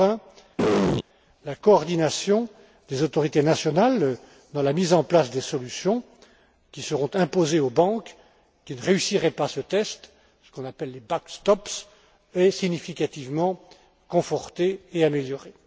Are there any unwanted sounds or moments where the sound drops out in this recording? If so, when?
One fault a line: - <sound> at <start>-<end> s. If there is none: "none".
- throat clearing at 0.6-1.0 s